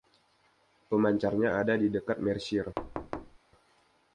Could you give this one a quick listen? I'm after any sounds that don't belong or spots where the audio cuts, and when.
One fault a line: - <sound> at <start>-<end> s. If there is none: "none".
- thud at 2.8-3.4 s